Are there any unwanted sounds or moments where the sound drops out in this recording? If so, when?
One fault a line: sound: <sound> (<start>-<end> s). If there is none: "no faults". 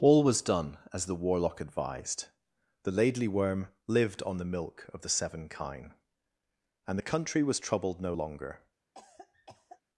sound: cough (8.9-9.8 s)